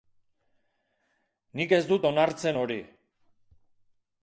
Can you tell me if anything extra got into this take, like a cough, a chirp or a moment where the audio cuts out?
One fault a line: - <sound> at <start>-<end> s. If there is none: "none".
none